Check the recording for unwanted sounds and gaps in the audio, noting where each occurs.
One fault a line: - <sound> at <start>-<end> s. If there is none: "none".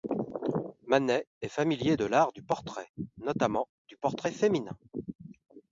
none